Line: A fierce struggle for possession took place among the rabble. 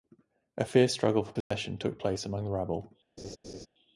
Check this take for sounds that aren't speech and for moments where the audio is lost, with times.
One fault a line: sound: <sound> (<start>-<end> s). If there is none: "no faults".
sound: dropout (1.4-1.5 s)
sound: laugh (3.2-3.7 s)